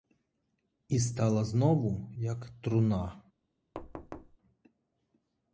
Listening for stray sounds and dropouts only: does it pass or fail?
fail